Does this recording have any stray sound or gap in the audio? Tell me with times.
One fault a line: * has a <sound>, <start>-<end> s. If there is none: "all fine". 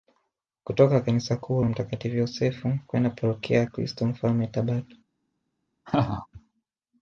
* has a laugh, 5.9-6.3 s